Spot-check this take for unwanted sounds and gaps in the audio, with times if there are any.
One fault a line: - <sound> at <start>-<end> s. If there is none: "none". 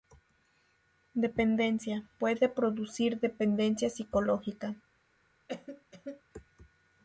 - cough at 5.5-6.2 s